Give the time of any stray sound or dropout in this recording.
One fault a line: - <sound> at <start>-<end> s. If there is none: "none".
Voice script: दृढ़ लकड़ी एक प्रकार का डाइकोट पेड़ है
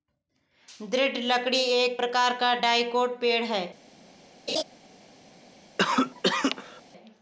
- laugh at 4.5-4.6 s
- cough at 5.8-6.8 s